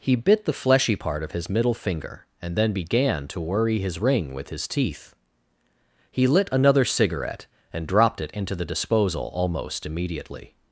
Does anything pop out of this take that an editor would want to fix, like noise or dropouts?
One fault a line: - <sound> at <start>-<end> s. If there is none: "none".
none